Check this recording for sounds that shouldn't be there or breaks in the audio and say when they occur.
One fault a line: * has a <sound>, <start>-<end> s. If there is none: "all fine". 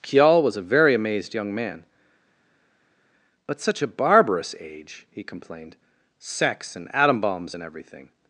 all fine